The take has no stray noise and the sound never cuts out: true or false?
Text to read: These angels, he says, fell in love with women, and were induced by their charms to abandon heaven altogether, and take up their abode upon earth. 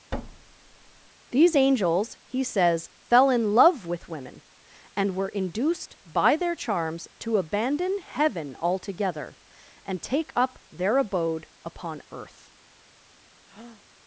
false